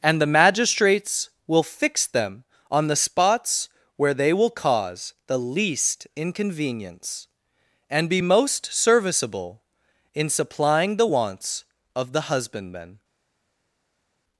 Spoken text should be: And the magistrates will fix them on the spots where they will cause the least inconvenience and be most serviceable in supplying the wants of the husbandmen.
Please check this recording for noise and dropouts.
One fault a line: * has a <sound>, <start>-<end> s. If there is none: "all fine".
all fine